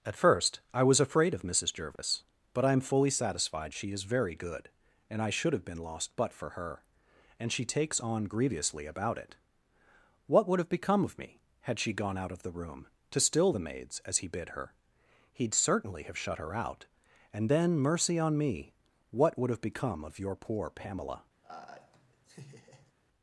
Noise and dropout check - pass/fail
fail